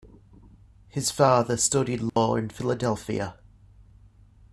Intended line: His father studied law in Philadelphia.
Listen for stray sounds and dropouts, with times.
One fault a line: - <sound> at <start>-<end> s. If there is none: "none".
- dropout at 2.1-2.2 s